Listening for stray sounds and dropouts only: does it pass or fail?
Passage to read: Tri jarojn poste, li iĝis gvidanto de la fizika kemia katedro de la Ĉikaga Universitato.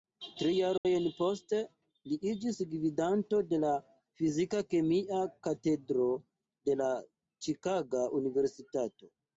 fail